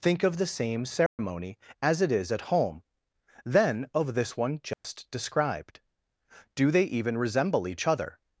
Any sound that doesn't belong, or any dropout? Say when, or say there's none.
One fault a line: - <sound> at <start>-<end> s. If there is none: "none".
- dropout at 1.1-1.2 s
- dropout at 4.7-4.8 s